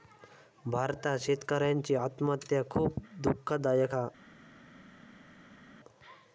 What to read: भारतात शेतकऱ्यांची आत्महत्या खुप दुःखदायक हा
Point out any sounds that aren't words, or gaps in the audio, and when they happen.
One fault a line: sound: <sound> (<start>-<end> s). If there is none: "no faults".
no faults